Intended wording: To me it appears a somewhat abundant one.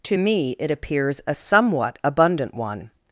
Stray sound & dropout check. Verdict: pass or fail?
pass